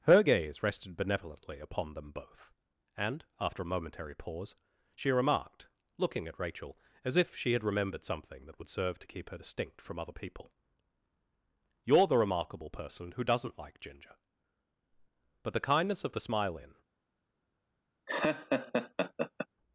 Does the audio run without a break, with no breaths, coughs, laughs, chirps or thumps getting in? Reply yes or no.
no